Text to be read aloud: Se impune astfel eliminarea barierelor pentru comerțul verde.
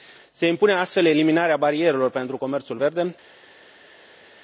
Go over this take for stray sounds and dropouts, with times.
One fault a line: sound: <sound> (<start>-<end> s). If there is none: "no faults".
no faults